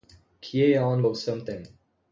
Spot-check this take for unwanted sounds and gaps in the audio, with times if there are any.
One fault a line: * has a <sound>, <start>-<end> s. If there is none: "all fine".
all fine